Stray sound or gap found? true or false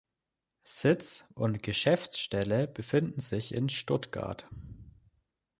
false